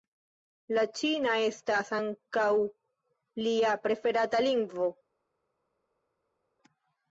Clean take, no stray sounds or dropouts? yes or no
yes